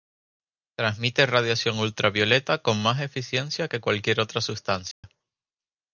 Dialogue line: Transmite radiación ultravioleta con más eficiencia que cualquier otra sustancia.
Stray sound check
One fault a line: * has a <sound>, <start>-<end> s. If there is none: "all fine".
* has a dropout, 4.9-5.0 s